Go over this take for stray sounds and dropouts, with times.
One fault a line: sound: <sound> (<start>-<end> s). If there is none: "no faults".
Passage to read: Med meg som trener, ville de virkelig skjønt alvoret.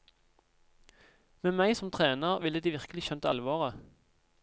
no faults